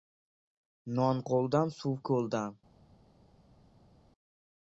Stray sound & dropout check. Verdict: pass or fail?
pass